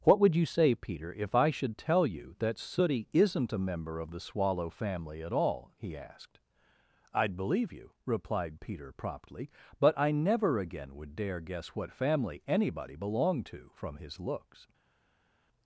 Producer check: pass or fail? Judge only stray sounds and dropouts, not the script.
pass